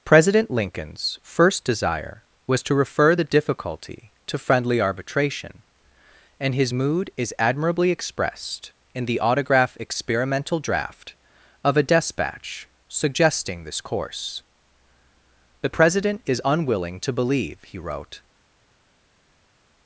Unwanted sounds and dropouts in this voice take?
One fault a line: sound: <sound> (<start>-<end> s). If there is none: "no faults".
no faults